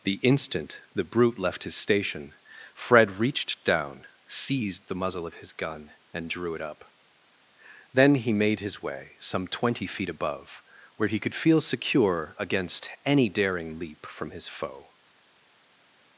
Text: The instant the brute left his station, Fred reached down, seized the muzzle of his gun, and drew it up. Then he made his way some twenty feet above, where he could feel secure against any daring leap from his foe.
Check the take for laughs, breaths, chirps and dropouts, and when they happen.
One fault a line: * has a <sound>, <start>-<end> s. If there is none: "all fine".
all fine